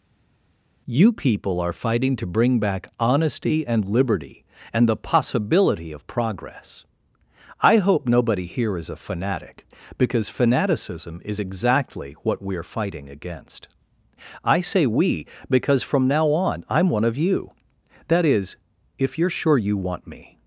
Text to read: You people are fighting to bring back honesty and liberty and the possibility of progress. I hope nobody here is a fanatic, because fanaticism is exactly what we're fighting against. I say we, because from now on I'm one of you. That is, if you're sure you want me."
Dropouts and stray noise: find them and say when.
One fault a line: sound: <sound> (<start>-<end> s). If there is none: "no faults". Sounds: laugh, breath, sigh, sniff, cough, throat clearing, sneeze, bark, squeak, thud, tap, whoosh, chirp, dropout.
no faults